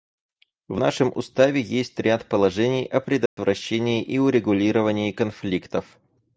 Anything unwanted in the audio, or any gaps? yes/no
yes